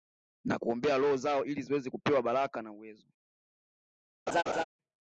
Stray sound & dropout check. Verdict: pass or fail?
fail